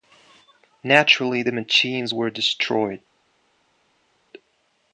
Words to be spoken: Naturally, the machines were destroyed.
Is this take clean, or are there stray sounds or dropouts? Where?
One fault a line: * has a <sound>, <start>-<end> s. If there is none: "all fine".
all fine